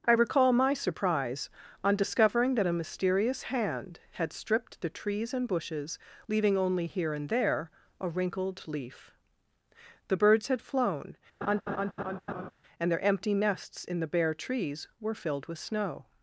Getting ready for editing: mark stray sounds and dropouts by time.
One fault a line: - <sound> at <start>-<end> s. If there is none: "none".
- laugh at 11.4-12.5 s